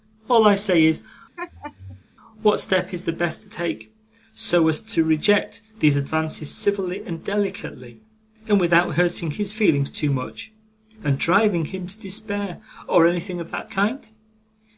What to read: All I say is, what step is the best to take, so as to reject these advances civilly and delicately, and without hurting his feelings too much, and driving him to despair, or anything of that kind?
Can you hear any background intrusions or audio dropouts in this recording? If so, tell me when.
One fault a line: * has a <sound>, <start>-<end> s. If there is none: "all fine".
* has a laugh, 1.4-2.0 s